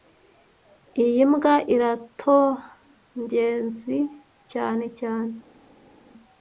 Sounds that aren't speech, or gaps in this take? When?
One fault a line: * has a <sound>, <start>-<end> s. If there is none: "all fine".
all fine